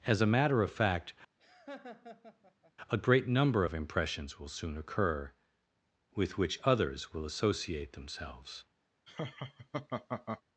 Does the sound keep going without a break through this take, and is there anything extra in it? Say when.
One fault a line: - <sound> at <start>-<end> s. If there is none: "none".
- laugh at 1.4-2.7 s
- laugh at 9.1-10.4 s